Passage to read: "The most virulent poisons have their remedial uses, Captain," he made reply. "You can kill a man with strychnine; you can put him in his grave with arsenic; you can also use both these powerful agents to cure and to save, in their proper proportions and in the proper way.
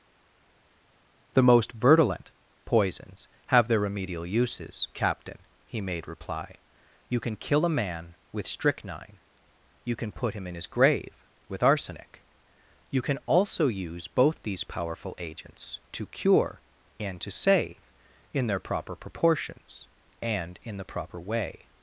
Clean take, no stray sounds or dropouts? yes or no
yes